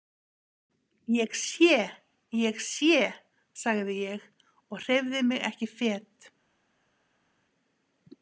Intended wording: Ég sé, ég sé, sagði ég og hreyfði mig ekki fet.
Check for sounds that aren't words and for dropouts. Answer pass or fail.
pass